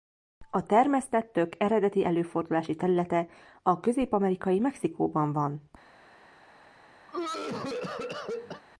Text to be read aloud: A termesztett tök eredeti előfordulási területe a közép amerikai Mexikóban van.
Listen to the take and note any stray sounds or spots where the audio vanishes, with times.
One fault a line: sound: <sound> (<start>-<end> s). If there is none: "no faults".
sound: cough (7.1-8.6 s)